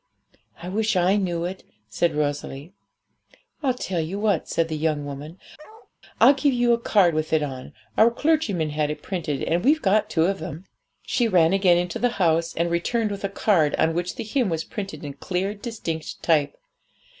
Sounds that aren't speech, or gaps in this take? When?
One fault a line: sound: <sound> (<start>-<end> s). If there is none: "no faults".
sound: bark (5.6-5.9 s)